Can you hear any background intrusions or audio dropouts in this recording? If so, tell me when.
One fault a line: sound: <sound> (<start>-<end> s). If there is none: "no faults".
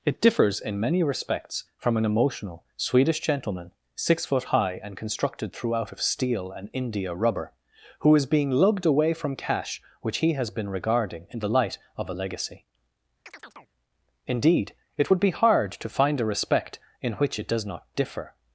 sound: chirp (13.3-13.7 s)